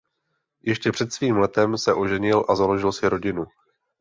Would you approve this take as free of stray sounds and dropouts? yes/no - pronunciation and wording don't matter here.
yes